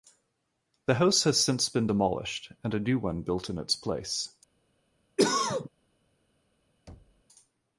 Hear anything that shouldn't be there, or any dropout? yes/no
yes